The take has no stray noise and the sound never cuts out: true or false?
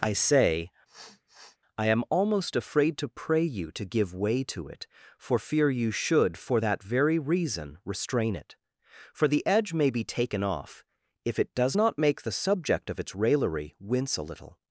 false